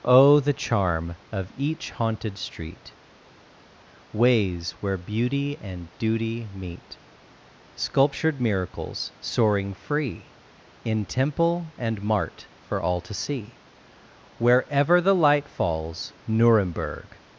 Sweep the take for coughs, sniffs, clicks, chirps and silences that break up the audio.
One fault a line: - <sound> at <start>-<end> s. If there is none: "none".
none